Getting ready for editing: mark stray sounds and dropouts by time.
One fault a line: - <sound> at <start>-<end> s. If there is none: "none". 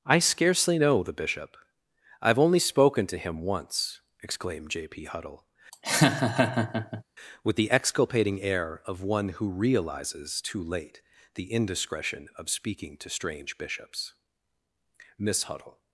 - laugh at 5.7-7.0 s